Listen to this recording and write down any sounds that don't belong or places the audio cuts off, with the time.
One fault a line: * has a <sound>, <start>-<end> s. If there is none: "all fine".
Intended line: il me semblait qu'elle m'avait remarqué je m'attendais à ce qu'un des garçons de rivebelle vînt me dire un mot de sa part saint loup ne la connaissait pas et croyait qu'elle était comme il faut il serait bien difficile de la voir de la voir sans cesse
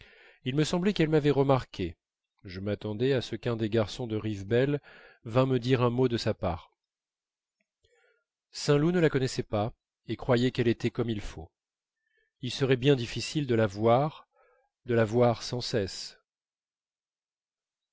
all fine